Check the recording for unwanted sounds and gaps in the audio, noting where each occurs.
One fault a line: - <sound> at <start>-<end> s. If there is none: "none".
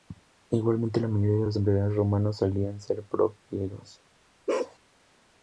- bark at 4.5-4.8 s